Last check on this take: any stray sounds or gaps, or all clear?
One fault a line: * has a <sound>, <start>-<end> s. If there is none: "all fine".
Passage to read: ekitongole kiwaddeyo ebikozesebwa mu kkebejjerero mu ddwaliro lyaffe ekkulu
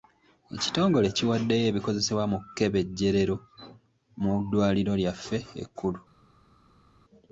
all fine